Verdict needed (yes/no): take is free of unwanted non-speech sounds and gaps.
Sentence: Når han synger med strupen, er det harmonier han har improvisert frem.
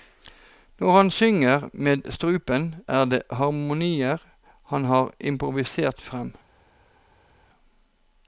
yes